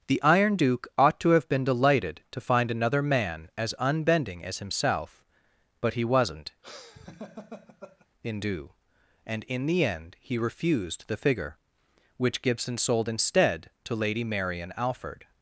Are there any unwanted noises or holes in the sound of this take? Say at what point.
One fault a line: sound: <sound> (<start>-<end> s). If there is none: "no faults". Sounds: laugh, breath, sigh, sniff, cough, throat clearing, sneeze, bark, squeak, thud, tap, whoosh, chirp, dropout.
sound: laugh (6.6-8.1 s)